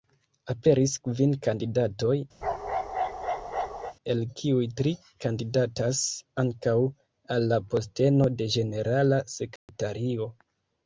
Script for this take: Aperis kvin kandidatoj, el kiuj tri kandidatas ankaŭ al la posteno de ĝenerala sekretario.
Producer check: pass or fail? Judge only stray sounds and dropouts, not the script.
fail